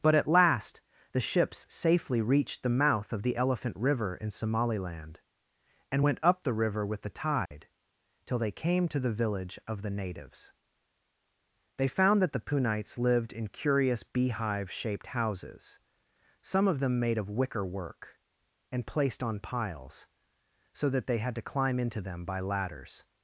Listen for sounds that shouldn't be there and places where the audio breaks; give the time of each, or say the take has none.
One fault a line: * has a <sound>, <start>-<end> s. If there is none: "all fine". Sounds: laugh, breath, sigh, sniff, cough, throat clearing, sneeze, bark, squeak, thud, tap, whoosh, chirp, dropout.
* has a dropout, 7.5-7.5 s